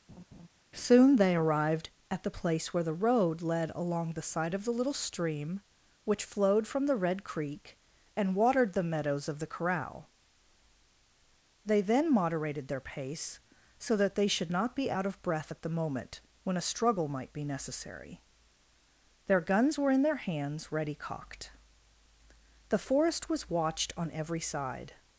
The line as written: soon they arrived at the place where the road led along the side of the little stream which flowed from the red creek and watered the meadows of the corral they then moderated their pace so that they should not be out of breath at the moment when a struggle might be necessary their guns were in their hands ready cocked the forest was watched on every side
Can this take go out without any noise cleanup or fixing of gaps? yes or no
no